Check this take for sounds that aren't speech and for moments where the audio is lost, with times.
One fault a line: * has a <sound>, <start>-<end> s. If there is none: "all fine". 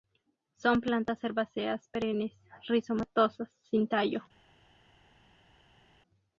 all fine